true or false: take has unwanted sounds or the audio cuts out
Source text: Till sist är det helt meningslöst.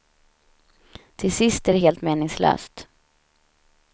false